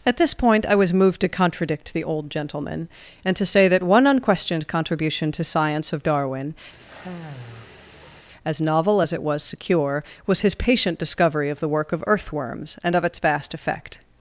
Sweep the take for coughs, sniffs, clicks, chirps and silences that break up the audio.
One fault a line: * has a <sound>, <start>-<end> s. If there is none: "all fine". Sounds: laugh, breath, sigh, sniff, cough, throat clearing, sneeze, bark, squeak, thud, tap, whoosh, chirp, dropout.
* has a sigh, 6.7-8.2 s